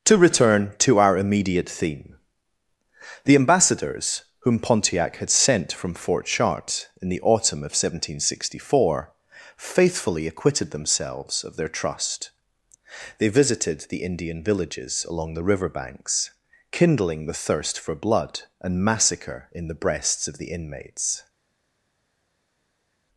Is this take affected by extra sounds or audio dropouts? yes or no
no